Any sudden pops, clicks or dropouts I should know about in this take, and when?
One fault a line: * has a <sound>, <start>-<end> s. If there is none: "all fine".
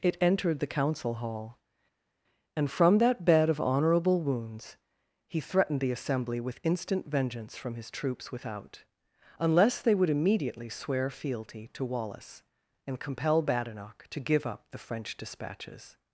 all fine